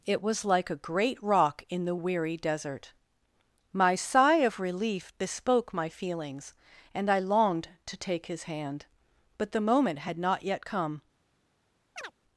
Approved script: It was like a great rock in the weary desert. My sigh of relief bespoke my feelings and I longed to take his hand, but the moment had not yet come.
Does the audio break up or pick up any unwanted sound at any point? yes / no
yes